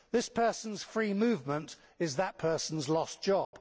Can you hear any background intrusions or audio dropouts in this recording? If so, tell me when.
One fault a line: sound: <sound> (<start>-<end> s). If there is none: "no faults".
sound: dropout (3.4-3.5 s)